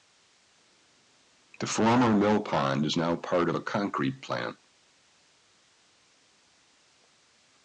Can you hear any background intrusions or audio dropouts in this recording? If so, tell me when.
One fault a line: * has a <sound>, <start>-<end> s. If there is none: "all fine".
all fine